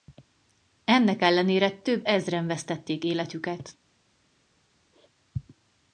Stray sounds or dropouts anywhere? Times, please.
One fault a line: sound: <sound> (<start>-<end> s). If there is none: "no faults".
no faults